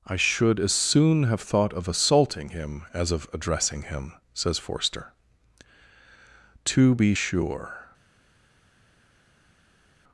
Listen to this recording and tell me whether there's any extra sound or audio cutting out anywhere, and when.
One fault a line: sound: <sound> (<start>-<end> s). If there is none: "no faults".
no faults